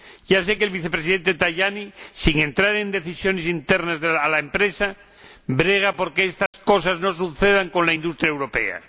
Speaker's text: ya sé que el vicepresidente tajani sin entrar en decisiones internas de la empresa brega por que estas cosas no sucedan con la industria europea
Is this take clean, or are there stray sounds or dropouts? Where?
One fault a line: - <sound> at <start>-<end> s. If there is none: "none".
- dropout at 6.5-6.5 s